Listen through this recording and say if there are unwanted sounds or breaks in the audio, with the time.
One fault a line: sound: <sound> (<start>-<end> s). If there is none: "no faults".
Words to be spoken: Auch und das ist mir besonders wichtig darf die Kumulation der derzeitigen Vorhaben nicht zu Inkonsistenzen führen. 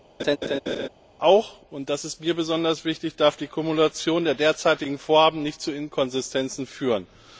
sound: laugh (0.2-0.9 s)